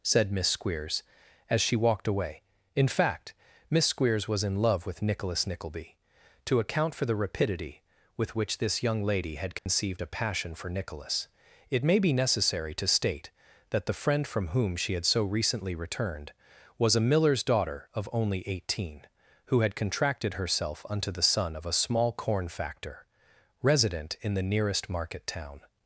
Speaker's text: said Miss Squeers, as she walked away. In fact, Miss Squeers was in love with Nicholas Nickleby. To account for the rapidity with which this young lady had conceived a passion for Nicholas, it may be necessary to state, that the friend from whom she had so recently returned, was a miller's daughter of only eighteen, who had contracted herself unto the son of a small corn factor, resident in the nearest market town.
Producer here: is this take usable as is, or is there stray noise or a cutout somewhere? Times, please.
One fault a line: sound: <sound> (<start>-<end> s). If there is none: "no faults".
sound: dropout (9.6-9.7 s)